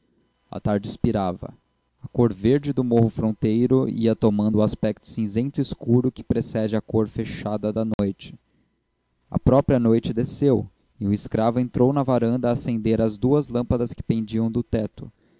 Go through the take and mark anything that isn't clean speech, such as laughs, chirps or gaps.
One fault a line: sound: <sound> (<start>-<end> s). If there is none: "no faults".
sound: dropout (7.9-8.0 s)